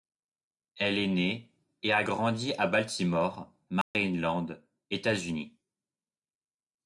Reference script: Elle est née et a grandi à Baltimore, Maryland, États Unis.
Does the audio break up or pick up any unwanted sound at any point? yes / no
yes